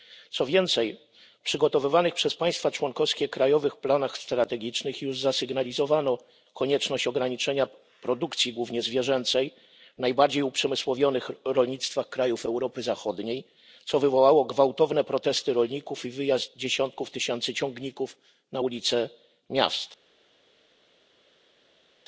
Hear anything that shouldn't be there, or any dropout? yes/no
no